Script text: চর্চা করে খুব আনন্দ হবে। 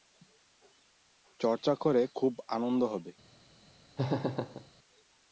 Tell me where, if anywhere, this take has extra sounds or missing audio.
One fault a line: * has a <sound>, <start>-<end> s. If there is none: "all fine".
* has a laugh, 4.0-4.7 s